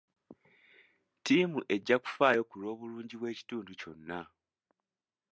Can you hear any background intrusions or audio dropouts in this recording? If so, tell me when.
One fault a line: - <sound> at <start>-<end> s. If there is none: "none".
none